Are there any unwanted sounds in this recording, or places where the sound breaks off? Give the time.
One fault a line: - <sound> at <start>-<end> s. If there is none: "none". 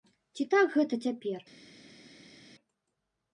none